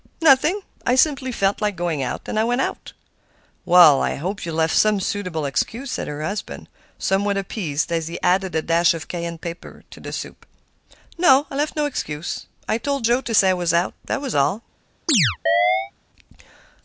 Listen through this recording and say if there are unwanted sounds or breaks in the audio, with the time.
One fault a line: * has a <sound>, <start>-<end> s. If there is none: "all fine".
* has a chirp, 15.1-15.9 s